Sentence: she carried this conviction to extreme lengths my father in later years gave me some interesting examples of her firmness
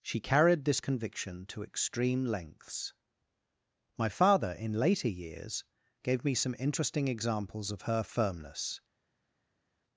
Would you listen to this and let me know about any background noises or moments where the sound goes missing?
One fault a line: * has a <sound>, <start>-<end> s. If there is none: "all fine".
all fine